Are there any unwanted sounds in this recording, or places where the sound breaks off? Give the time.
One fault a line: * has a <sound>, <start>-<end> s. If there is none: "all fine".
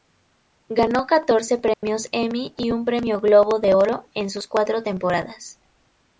* has a dropout, 1.7-1.8 s